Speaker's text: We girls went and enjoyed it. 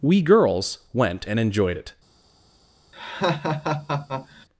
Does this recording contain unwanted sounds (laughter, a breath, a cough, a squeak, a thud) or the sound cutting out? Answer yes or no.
yes